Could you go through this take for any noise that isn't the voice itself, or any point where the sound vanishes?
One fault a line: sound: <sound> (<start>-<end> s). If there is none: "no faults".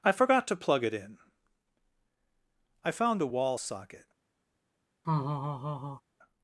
sound: laugh (5.0-6.0 s)